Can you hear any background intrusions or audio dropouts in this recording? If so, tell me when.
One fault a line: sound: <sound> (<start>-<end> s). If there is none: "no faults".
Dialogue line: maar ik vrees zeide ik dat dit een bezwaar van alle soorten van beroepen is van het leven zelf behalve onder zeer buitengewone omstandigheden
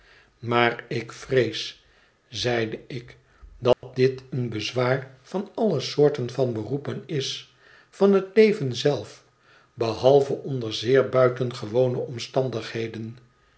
sound: dropout (3.7-3.8 s)